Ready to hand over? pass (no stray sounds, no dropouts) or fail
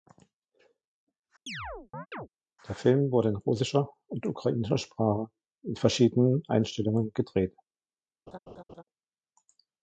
fail